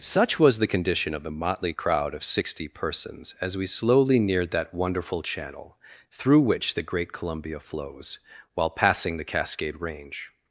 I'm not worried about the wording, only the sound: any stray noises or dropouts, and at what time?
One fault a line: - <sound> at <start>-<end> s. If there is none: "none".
none